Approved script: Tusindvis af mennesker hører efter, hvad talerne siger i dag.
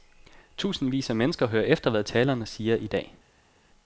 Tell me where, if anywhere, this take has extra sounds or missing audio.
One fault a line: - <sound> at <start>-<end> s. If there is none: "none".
none